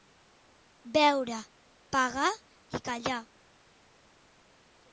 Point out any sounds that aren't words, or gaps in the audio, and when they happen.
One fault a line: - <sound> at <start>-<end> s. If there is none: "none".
none